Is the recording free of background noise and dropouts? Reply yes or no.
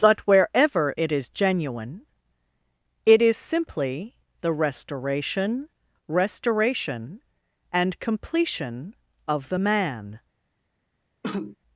no